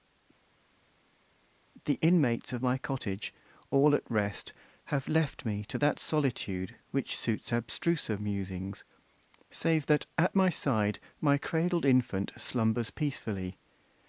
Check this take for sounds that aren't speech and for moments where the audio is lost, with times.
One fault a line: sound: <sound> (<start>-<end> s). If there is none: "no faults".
no faults